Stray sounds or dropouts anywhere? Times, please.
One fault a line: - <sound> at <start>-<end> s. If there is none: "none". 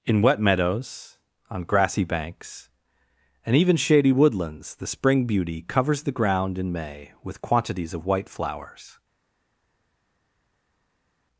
none